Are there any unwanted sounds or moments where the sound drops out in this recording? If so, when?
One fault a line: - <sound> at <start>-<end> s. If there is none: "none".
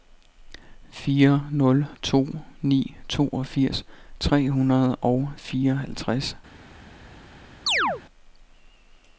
- chirp at 7.7-8.0 s